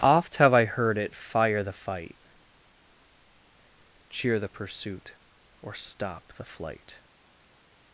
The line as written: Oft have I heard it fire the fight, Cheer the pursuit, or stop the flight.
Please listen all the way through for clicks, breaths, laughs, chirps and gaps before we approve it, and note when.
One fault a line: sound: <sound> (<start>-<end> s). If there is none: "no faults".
no faults